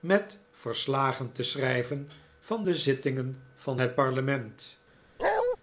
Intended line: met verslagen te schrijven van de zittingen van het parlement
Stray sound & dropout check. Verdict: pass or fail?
fail